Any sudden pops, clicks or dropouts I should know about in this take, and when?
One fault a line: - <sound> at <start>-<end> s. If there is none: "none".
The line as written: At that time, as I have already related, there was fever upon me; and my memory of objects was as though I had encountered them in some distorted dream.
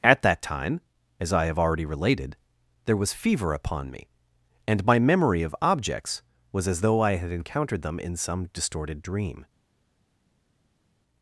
none